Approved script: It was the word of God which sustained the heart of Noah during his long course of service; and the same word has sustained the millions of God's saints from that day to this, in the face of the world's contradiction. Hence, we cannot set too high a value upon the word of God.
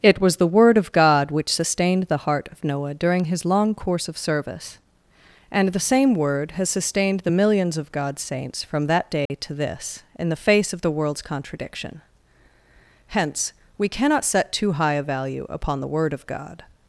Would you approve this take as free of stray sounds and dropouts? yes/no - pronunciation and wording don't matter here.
no